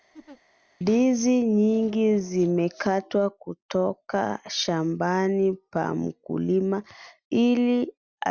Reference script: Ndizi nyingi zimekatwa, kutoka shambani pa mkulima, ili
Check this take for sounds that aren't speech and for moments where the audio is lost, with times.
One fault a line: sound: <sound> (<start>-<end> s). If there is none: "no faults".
sound: laugh (0.1-0.4 s)